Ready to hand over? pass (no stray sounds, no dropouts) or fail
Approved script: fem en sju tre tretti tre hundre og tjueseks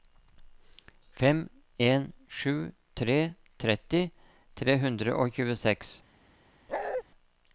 fail